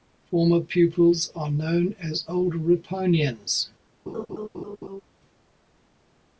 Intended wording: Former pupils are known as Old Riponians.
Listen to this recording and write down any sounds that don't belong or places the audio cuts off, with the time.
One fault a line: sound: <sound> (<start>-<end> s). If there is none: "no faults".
sound: laugh (4.1-5.0 s)